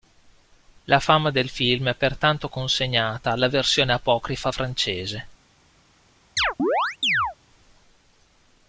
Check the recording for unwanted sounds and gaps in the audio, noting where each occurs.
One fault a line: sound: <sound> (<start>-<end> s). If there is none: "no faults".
sound: chirp (6.4-7.4 s)